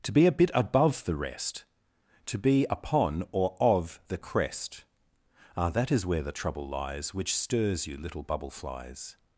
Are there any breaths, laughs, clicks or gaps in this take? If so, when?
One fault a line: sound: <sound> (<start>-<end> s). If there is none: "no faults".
no faults